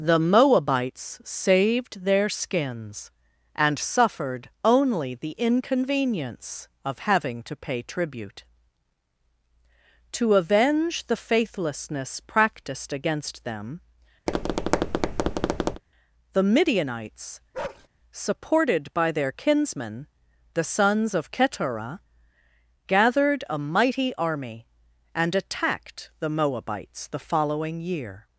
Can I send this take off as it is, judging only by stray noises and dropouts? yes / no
no